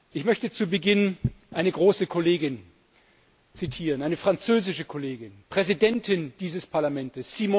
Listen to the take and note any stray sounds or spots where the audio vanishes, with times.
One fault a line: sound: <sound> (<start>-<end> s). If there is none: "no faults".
no faults